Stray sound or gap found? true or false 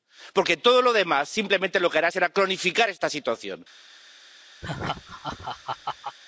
true